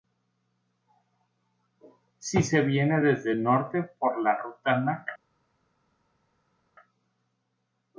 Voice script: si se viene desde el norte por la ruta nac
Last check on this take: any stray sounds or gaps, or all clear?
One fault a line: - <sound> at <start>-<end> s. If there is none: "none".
none